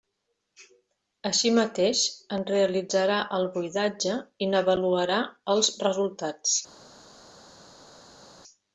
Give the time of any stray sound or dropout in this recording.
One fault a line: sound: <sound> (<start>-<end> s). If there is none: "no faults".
no faults